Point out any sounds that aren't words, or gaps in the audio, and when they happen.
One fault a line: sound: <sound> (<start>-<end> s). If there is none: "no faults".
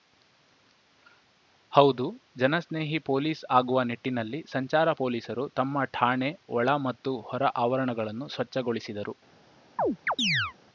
sound: chirp (9.8-10.5 s)